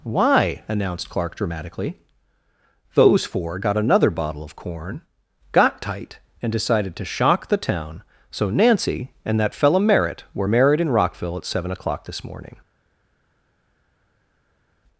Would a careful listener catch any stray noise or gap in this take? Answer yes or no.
no